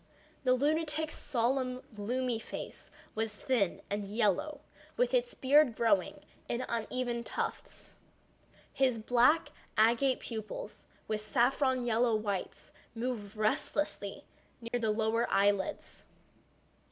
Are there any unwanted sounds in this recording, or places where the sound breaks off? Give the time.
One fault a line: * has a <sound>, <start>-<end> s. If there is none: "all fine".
* has a dropout, 14.7-14.7 s